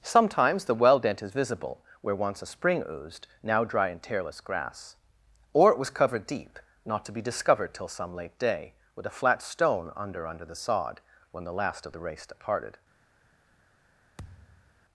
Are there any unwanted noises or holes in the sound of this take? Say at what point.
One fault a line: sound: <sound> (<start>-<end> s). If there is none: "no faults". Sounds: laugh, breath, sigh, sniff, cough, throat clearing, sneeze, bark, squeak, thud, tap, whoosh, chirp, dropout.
sound: thud (14.2-14.8 s)